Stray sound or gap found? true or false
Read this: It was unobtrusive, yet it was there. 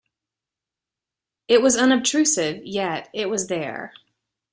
false